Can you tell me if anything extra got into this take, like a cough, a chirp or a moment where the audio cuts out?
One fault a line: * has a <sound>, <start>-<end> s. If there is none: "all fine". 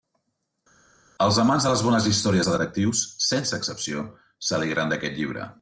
all fine